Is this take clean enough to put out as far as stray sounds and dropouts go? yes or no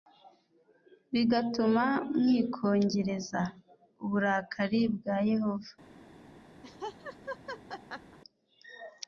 no